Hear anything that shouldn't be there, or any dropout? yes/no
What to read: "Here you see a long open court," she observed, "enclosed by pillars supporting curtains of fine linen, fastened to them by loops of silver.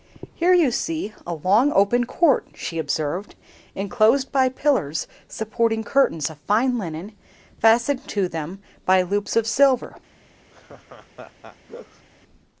yes